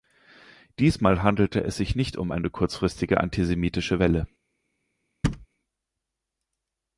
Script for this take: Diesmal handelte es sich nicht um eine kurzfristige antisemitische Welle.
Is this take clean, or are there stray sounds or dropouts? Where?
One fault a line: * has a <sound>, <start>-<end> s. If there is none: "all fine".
* has a thud, 5.2-5.5 s